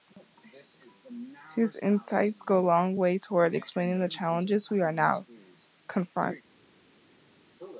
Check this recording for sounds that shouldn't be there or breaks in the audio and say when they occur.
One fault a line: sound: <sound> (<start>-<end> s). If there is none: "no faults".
no faults